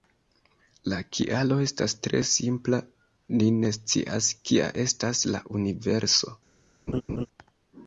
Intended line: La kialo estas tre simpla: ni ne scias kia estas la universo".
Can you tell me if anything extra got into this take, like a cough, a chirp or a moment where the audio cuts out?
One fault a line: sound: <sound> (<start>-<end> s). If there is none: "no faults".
sound: laugh (6.9-7.3 s)